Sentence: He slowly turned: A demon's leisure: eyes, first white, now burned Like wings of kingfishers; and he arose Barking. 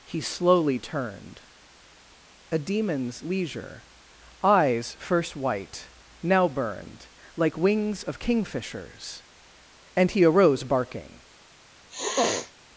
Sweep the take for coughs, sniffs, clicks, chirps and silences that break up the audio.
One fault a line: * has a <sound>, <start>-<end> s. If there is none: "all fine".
* has a sniff, 11.9-12.5 s